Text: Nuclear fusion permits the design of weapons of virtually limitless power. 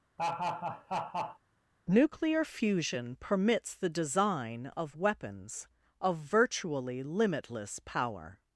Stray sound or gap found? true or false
true